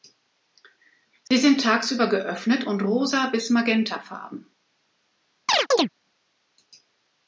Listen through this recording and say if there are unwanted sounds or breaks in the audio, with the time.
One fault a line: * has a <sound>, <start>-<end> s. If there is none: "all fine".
* has a dropout, 1.3-1.3 s
* has a chirp, 5.5-5.9 s